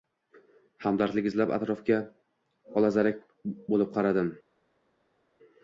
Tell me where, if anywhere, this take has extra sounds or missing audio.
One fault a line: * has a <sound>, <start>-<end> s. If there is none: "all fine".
all fine